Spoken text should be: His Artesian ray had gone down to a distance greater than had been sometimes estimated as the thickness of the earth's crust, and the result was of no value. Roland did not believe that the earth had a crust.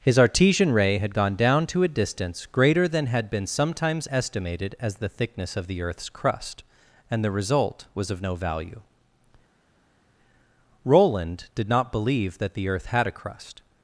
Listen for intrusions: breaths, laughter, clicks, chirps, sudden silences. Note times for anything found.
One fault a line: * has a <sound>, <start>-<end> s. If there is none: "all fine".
all fine